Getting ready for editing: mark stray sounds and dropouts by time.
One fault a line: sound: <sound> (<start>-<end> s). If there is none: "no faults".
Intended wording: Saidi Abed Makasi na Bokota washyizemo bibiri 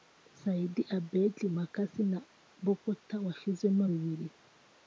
no faults